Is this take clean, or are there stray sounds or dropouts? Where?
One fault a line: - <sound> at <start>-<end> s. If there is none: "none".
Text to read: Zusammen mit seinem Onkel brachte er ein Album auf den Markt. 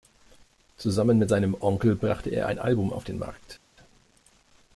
none